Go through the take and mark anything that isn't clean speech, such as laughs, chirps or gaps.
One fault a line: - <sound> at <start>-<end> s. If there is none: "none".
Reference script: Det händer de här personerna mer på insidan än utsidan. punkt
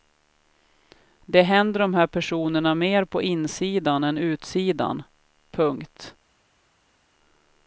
none